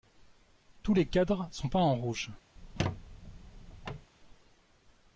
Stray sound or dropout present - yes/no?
yes